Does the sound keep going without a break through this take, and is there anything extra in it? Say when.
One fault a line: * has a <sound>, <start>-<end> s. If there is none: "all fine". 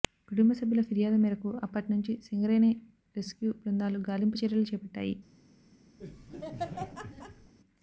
* has a laugh, 6.0-7.5 s